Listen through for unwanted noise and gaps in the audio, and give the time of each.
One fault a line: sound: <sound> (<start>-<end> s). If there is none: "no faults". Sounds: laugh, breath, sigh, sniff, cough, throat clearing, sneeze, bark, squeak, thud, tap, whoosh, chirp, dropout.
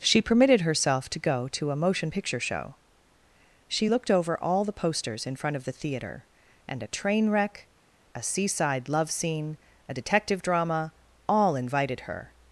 no faults